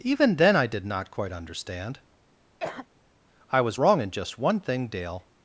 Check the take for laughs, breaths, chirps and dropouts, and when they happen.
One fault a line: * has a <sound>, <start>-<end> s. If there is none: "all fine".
* has a cough, 2.6-2.9 s